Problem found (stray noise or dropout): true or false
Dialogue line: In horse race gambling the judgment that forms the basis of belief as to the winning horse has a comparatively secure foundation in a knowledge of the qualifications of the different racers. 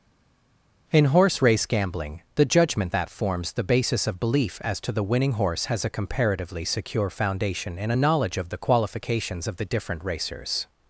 false